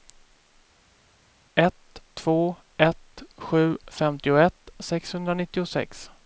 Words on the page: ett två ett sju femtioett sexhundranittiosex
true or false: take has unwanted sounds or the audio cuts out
false